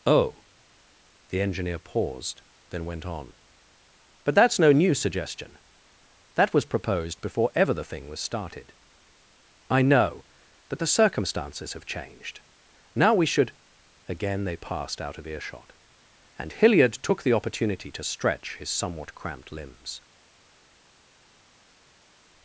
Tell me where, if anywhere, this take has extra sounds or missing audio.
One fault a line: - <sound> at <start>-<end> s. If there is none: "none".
none